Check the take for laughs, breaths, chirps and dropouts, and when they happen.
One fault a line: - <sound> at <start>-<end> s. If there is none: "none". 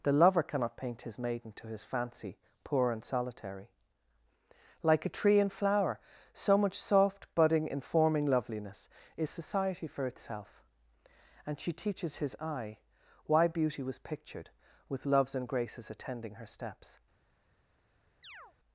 - chirp at 18.2-18.5 s